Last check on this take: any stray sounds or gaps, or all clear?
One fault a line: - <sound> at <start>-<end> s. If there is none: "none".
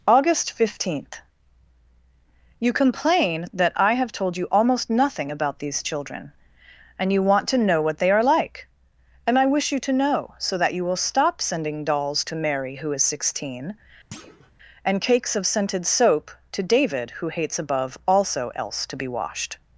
- thud at 14.1-14.5 s